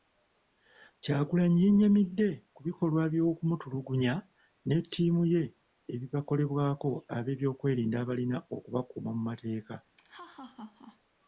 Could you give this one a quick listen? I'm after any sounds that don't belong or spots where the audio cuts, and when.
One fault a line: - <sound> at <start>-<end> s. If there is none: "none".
- laugh at 10.0-11.0 s